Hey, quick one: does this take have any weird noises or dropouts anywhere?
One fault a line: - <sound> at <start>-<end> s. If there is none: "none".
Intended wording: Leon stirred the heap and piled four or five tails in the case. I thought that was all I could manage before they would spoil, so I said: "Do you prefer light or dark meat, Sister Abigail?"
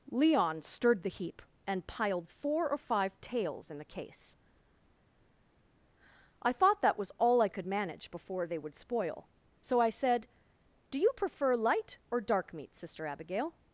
none